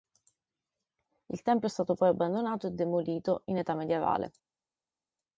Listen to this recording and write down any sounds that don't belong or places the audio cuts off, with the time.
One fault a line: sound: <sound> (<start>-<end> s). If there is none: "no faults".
no faults